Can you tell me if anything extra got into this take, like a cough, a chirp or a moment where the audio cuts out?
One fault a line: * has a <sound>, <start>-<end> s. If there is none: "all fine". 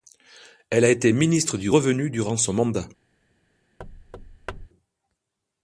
* has a thud, 3.8-4.7 s